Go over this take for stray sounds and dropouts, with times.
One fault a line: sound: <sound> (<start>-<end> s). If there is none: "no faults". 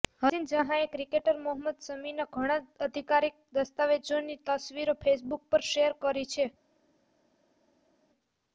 no faults